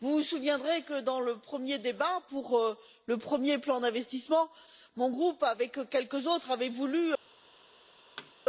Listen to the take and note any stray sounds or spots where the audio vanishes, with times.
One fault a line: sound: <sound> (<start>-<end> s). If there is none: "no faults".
sound: thud (8.2-8.3 s)